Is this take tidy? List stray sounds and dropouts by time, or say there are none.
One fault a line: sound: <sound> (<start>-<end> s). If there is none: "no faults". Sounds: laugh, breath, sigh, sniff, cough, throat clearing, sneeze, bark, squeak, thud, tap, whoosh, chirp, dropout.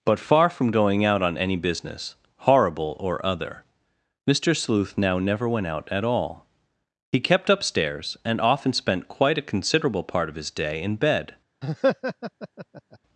sound: laugh (11.6-13.0 s)